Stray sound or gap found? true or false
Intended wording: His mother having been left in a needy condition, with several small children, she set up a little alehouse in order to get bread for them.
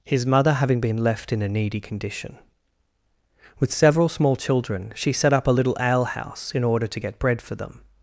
false